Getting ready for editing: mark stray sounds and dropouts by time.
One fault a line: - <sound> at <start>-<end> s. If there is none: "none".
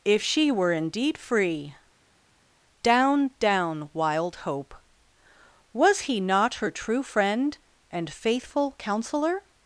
none